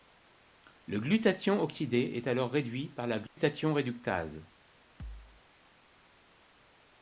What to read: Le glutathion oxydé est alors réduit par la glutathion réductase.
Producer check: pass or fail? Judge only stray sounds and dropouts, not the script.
fail